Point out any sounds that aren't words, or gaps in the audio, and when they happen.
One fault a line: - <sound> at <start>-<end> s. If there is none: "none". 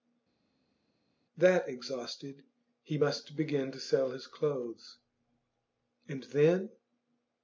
none